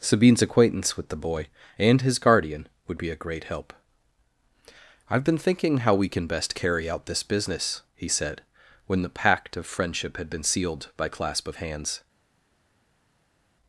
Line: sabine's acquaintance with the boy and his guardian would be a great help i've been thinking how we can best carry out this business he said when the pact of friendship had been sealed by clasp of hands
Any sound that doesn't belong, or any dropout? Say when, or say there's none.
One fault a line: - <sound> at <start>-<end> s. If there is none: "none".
none